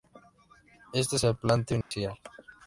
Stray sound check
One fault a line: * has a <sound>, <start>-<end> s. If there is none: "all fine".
* has a dropout, 1.8-1.9 s